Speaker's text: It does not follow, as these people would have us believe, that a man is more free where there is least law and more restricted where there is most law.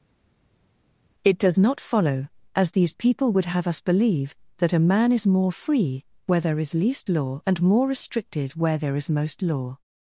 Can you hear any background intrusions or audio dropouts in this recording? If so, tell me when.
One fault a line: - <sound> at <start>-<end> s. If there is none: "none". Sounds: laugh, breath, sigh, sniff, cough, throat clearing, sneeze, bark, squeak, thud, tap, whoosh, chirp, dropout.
none